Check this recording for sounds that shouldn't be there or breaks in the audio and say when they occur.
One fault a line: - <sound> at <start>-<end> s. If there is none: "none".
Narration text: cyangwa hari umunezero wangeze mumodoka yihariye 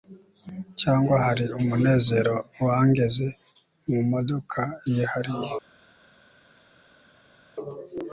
none